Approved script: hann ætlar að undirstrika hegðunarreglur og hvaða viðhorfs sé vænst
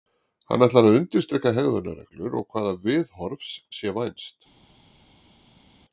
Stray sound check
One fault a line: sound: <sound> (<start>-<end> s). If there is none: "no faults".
no faults